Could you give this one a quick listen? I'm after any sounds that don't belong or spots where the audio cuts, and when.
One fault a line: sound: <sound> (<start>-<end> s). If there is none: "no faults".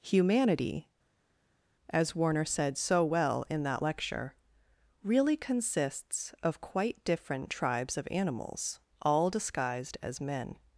no faults